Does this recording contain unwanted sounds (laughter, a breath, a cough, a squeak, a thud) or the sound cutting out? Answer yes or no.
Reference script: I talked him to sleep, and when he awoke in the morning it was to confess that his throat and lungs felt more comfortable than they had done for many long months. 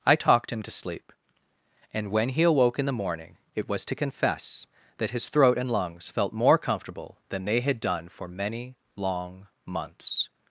no